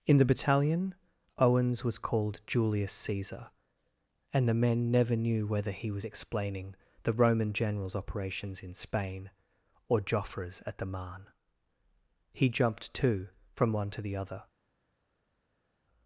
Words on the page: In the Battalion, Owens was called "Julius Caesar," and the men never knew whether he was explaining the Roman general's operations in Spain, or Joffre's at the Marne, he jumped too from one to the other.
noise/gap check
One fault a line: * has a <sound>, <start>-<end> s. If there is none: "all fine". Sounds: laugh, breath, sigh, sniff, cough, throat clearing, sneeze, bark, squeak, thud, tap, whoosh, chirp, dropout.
all fine